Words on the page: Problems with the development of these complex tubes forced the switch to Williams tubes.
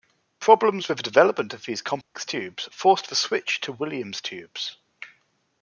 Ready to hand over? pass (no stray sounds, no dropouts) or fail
fail